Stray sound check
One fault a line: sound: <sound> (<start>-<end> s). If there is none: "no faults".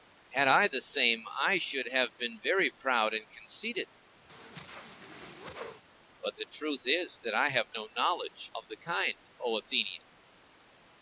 sound: whoosh (4.3-5.8 s)